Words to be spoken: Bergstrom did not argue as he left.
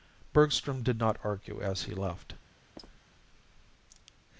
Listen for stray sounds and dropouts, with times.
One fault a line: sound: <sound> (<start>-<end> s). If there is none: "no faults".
sound: squeak (2.8-3.0 s)